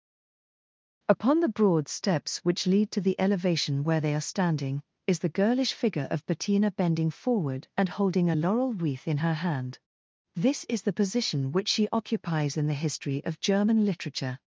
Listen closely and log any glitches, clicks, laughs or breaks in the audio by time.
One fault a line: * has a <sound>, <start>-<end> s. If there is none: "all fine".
all fine